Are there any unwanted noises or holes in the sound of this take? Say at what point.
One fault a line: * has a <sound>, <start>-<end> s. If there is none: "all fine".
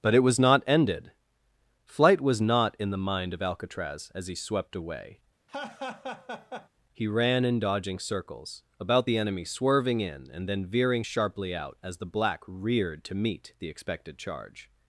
* has a laugh, 5.5-6.7 s